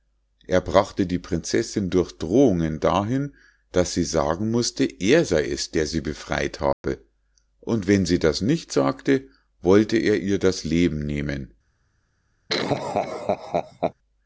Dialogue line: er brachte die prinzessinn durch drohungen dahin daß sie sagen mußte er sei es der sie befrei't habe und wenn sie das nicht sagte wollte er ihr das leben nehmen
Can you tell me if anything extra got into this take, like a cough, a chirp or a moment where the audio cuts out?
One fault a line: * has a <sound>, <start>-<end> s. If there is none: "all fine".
* has a dropout, 6.7-6.8 s
* has a laugh, 12.5-13.9 s